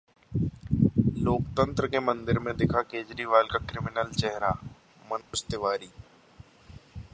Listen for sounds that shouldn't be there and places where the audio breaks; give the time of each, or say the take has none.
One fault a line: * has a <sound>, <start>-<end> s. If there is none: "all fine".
* has a dropout, 5.2-5.3 s